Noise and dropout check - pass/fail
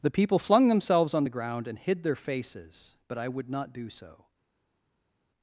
pass